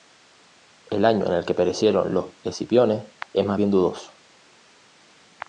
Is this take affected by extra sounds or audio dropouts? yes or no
no